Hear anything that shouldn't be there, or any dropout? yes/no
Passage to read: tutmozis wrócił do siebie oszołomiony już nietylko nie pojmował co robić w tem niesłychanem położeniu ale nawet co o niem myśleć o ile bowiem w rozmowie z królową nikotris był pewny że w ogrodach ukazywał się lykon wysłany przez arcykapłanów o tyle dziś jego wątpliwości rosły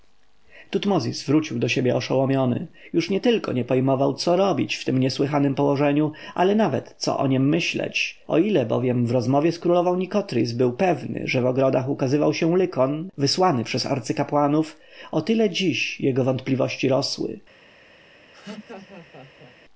yes